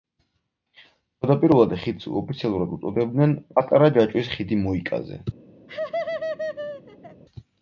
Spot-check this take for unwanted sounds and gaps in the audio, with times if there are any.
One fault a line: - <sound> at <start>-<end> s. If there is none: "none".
- laugh at 5.7-7.2 s